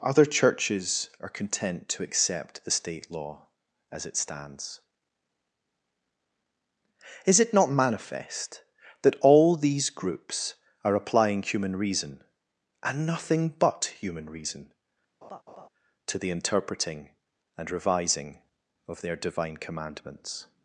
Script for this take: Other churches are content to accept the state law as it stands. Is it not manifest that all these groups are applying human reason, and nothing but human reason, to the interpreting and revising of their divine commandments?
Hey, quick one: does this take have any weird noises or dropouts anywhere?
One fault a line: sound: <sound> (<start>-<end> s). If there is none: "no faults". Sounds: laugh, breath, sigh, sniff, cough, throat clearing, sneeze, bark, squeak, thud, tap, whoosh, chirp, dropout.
sound: laugh (15.2-15.7 s)